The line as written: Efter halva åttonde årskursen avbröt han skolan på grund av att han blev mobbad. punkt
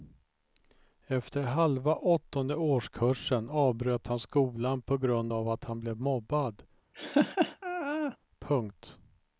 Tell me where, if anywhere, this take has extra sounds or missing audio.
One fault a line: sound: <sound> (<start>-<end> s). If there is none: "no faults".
sound: laugh (6.9-8.2 s)